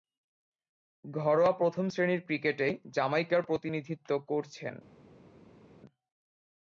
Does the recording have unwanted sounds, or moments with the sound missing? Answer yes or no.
no